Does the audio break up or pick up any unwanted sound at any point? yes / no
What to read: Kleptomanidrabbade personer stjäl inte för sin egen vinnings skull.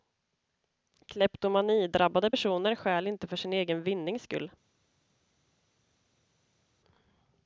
no